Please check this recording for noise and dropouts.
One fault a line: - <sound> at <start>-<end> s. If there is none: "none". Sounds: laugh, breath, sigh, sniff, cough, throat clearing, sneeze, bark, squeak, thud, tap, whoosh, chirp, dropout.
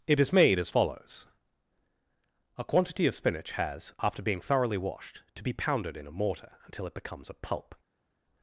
none